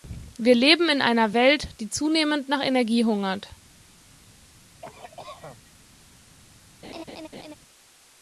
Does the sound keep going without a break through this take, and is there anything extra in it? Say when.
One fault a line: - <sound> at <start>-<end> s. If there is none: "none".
- cough at 4.8-5.7 s
- laugh at 6.8-7.5 s